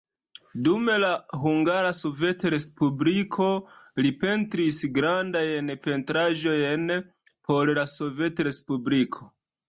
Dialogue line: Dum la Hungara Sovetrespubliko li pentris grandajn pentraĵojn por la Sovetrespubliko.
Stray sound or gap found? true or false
false